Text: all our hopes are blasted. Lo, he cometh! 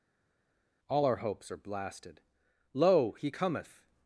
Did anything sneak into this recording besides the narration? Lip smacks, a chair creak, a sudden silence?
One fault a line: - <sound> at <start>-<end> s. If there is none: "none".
none